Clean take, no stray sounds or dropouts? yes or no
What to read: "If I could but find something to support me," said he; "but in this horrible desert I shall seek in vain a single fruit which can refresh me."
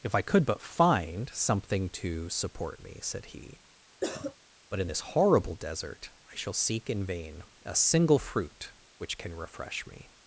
no